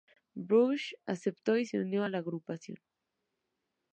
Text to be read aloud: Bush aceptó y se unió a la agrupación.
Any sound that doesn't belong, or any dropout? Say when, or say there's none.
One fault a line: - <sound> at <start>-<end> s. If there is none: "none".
none